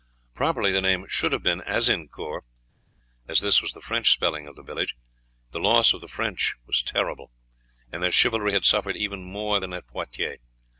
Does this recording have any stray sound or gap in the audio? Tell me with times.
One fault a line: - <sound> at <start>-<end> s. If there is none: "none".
none